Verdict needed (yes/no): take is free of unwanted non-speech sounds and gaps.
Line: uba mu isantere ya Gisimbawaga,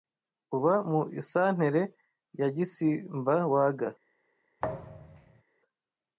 no